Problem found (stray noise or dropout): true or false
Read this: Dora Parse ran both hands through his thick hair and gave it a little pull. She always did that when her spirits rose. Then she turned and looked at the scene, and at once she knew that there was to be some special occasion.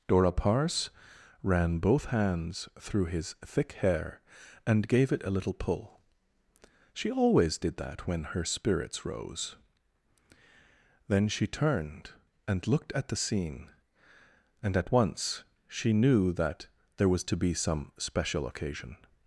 false